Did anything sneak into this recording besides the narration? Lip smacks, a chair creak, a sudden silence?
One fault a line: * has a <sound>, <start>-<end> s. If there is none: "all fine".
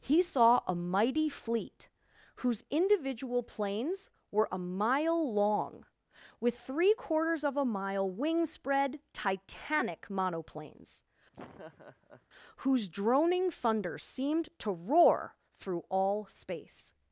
* has a laugh, 11.3-12.3 s